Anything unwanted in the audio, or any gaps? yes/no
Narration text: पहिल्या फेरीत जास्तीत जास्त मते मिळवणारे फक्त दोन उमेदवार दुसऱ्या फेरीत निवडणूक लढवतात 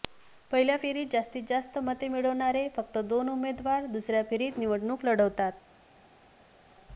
no